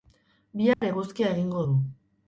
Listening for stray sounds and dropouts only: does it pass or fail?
fail